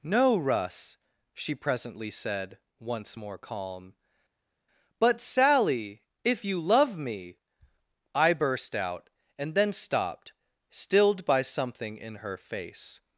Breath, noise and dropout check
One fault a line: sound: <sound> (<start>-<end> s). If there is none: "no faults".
no faults